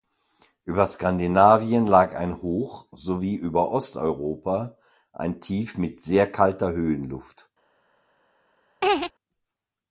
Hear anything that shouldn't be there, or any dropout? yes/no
yes